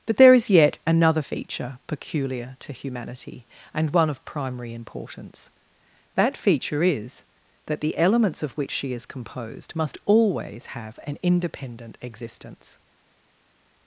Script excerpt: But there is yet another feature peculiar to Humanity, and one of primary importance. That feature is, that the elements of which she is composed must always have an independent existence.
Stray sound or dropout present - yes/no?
no